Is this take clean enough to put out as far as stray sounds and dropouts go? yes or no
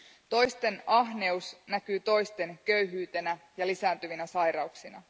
yes